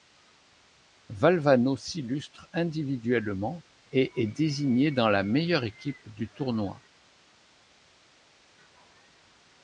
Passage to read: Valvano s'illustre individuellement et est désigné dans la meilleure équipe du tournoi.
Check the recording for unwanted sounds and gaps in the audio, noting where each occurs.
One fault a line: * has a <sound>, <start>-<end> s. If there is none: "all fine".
all fine